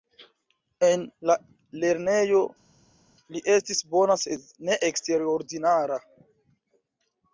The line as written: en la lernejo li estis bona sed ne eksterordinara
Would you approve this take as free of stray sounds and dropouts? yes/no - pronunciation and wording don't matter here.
yes